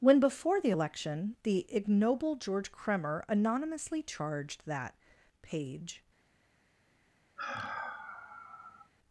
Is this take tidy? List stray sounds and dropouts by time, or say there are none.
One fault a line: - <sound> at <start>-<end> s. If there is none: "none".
- sigh at 7.4-8.9 s